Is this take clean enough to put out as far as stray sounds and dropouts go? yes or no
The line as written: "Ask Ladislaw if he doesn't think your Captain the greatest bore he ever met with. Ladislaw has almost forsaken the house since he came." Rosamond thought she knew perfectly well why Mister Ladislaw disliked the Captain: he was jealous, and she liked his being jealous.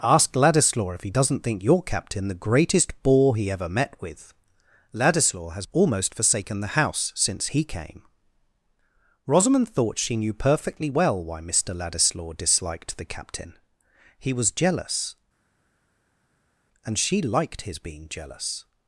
yes